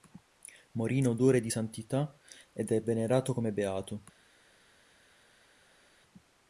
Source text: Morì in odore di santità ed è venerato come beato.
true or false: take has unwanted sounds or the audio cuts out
false